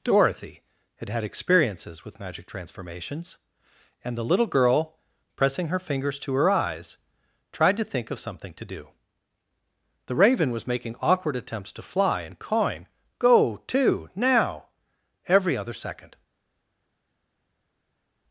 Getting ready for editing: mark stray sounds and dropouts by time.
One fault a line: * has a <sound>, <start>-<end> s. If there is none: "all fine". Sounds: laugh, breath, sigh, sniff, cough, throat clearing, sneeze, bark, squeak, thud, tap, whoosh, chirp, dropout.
all fine